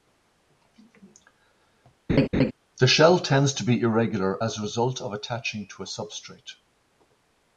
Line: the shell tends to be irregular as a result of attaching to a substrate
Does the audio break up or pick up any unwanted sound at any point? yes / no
yes